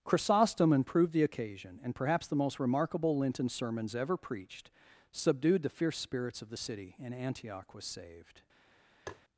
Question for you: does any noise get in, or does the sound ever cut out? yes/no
yes